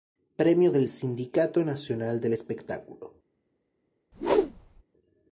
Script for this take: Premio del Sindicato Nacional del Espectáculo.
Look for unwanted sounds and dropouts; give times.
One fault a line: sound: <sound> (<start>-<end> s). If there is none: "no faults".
sound: whoosh (4.1-4.8 s)